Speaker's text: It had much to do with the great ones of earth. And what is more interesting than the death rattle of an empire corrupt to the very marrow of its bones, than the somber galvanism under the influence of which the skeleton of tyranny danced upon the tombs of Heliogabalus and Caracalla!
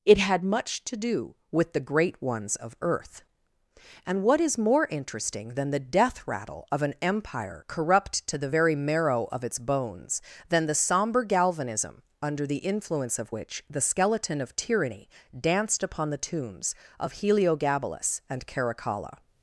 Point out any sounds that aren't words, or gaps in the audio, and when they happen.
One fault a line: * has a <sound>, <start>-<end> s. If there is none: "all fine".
all fine